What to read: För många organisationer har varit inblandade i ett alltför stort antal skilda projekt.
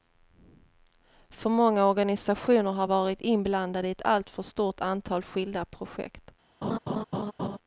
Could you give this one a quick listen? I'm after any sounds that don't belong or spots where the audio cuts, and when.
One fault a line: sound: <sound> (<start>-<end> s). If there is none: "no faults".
sound: laugh (6.6-7.6 s)